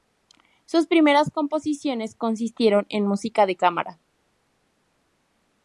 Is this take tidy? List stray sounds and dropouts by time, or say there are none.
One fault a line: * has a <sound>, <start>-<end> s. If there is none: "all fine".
all fine